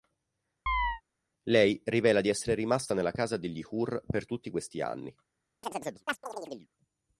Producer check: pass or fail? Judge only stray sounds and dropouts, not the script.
fail